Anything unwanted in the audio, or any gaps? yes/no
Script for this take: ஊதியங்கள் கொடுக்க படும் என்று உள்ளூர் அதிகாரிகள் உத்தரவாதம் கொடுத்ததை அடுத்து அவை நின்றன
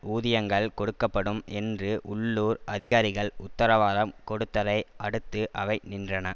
yes